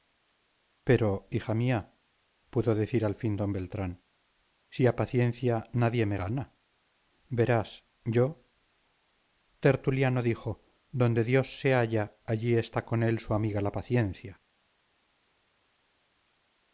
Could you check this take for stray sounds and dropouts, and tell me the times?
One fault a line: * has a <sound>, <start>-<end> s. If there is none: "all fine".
all fine